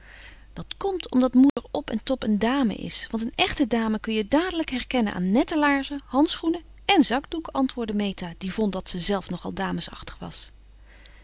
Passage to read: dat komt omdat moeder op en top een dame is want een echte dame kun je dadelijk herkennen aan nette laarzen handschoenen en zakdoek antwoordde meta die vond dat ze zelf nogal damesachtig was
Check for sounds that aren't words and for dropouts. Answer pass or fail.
fail